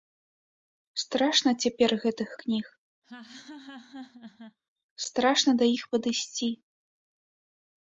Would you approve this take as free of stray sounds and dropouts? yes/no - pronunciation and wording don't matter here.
no